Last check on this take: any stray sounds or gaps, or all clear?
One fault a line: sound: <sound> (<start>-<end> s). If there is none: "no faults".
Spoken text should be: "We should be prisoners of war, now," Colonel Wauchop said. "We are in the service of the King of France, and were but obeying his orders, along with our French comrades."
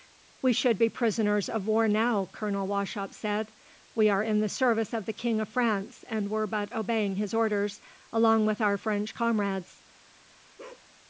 sound: bark (10.6-10.9 s)